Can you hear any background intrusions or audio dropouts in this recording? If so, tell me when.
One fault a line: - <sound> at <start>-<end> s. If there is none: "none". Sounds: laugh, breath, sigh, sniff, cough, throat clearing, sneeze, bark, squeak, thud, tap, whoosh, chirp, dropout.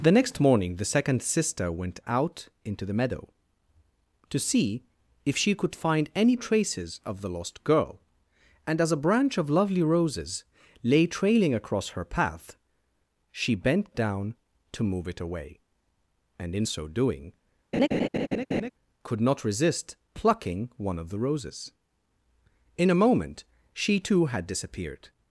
- laugh at 17.7-18.7 s